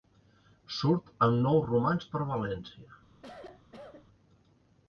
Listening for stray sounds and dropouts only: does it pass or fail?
fail